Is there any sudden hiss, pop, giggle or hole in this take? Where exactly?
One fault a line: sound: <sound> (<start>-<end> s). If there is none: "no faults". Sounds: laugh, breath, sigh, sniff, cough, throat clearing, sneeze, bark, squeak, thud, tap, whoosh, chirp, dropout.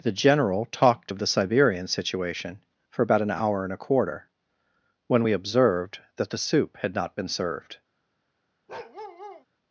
sound: bark (8.7-9.5 s)